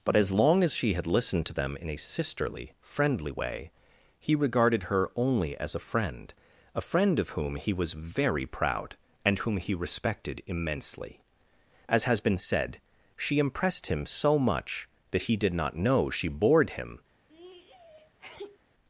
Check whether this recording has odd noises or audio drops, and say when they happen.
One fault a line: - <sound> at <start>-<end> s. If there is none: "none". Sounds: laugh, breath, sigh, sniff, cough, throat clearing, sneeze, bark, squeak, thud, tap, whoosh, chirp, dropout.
- sneeze at 17.3-18.6 s